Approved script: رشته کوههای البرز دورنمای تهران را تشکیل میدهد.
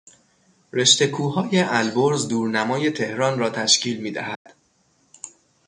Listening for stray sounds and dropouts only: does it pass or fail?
fail